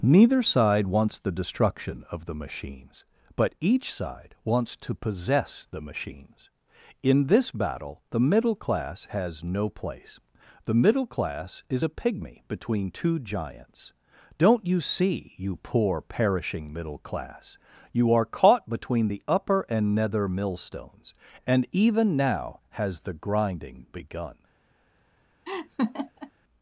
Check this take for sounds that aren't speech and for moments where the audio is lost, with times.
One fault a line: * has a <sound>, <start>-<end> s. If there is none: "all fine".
* has a laugh, 25.4-26.3 s